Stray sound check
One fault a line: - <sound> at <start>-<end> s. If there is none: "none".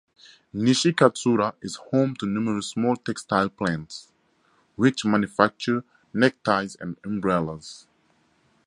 none